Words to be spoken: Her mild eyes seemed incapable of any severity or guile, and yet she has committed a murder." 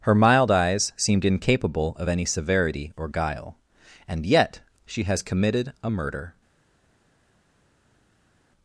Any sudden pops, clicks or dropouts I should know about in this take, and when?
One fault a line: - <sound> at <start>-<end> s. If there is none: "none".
none